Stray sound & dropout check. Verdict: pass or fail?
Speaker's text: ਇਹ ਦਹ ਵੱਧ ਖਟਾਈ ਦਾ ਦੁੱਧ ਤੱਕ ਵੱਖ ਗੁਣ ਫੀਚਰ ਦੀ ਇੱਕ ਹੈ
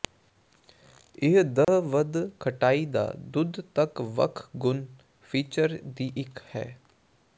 fail